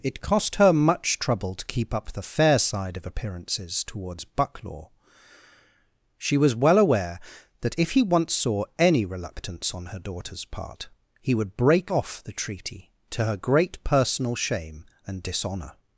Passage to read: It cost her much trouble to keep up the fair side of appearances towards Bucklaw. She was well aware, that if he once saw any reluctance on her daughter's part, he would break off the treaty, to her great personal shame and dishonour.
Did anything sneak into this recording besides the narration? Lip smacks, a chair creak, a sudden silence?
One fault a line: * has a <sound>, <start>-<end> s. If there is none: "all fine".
all fine